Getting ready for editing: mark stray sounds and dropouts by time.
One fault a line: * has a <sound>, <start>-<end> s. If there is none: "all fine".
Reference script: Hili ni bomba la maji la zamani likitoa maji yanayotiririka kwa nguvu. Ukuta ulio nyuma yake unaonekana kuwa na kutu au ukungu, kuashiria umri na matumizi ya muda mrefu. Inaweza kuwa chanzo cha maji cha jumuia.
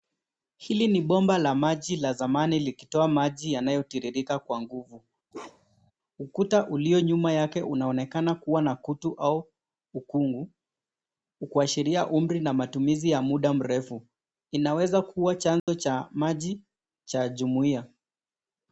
* has a bark, 5.3-5.9 s
* has a dropout, 15.6-15.7 s